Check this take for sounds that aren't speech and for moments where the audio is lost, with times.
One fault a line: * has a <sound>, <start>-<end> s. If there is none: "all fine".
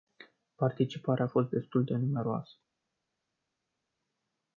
all fine